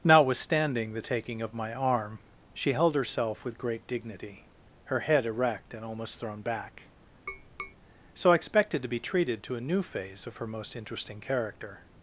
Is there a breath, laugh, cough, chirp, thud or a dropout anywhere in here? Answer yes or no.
yes